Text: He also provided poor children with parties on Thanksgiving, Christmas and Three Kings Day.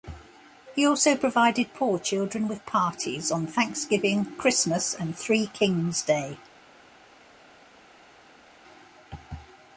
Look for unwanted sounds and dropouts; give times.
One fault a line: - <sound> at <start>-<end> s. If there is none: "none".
none